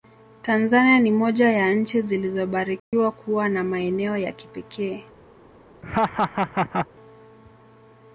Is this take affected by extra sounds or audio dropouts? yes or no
yes